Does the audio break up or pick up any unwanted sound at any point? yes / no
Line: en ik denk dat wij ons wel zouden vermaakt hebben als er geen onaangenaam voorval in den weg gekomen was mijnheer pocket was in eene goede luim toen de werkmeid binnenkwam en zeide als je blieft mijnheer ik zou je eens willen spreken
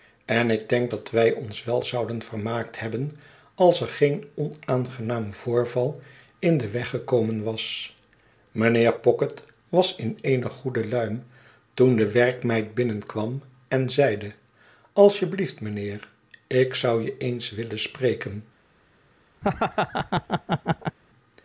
yes